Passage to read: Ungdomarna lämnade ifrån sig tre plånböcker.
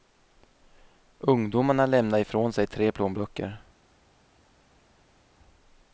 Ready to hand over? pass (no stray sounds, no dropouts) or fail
pass